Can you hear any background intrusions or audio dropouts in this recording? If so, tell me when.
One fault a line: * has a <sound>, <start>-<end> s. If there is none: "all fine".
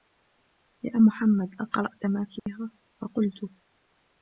* has a dropout, 2.4-2.5 s